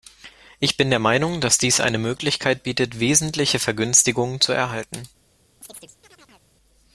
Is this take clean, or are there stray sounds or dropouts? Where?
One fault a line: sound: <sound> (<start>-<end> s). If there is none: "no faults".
sound: chirp (5.6-6.5 s)